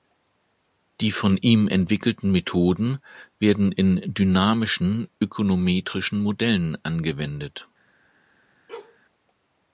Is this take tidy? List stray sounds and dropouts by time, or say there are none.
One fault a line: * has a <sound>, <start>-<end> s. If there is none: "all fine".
* has a bark, 8.7-9.0 s